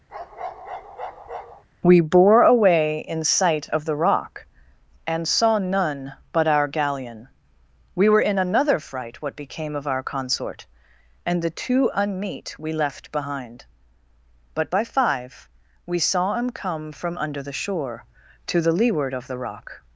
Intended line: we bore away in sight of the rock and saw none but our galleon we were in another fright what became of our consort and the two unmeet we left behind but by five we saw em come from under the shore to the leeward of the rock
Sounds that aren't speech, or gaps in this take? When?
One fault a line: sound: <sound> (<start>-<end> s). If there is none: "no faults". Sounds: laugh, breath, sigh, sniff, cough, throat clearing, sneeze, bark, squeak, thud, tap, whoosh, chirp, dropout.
sound: bark (0.1-1.6 s)